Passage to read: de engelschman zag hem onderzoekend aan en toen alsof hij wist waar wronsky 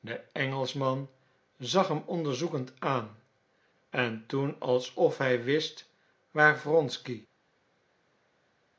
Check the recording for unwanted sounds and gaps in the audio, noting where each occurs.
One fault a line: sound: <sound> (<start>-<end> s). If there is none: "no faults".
no faults